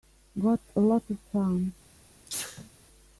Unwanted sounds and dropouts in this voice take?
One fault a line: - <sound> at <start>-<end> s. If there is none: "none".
- sneeze at 2.3-2.7 s